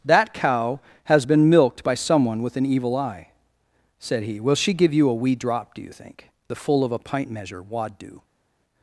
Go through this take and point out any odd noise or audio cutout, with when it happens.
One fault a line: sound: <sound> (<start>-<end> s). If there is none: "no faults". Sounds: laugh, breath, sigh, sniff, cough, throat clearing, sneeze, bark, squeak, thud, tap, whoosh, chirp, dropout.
no faults